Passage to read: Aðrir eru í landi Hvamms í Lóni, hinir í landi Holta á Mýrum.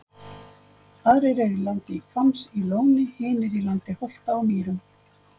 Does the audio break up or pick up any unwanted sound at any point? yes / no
no